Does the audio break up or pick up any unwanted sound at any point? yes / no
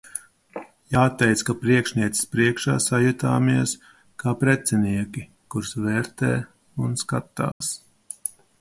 yes